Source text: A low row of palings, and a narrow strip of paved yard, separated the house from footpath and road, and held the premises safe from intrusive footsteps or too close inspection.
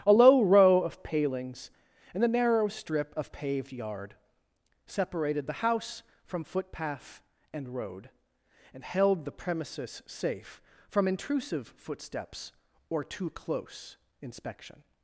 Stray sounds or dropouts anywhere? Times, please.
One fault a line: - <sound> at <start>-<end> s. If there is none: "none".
none